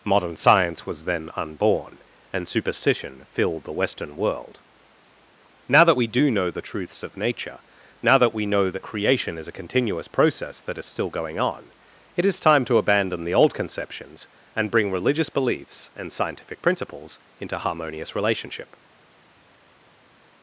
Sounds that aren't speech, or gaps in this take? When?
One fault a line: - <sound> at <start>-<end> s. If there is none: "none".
none